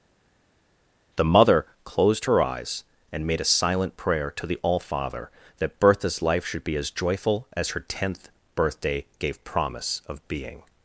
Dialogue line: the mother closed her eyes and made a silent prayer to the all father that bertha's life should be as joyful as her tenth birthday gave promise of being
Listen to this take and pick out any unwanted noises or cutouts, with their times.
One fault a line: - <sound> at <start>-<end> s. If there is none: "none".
none